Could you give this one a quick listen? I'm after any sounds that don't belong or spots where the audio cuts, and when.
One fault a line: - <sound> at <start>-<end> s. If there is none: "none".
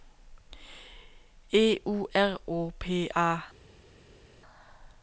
none